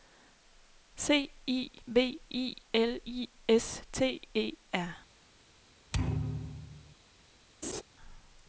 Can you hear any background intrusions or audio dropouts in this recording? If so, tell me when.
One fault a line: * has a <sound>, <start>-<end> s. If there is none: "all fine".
* has a thud, 5.9-7.0 s
* has a laugh, 7.6-7.8 s